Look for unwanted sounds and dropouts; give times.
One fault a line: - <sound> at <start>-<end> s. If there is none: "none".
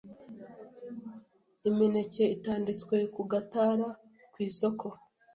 none